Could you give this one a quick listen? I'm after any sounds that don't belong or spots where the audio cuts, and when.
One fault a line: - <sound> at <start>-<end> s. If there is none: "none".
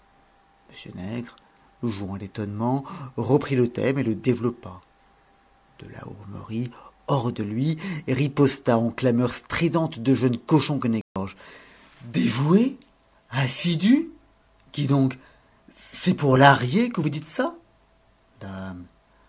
- dropout at 11.0-11.2 s